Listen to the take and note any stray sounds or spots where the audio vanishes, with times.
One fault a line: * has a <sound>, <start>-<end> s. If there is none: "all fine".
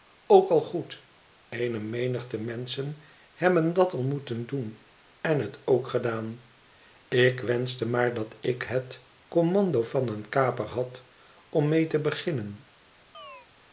* has a chirp, 13.1-13.5 s